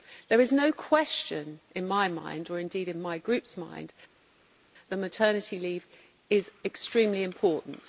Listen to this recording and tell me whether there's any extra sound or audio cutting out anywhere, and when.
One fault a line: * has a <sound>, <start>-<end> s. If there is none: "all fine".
all fine